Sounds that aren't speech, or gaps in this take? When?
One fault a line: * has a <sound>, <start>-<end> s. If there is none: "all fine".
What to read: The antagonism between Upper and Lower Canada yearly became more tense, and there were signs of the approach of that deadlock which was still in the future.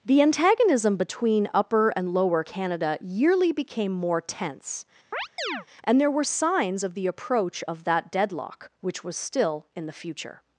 * has a chirp, 5.1-5.7 s